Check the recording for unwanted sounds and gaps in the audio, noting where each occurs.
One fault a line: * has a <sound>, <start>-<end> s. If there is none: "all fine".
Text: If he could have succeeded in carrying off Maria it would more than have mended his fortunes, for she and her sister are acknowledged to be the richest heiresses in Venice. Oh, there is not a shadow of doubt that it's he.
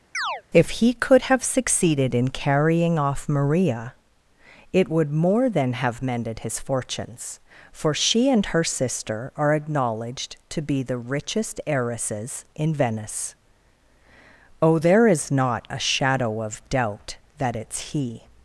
* has a chirp, 0.1-0.4 s